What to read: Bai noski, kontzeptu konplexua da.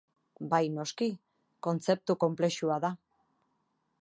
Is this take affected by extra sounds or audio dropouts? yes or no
no